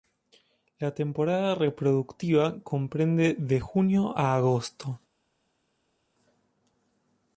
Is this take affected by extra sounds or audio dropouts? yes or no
no